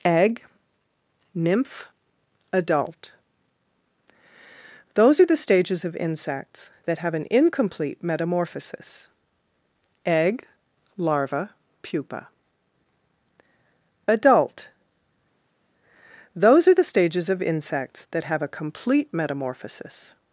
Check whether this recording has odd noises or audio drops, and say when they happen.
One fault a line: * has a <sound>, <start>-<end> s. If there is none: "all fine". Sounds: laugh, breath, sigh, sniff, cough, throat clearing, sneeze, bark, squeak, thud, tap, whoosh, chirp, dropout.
all fine